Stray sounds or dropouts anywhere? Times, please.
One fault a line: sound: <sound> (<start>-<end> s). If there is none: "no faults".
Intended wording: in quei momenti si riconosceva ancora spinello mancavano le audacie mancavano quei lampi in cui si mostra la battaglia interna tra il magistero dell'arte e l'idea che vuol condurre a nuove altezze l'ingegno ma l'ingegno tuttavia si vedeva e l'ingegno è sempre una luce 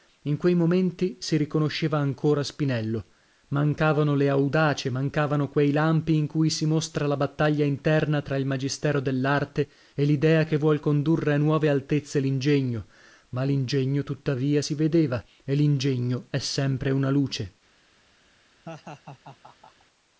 sound: laugh (18.7-19.9 s)